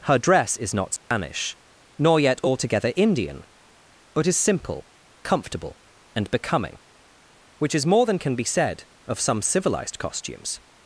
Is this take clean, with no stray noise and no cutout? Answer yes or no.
no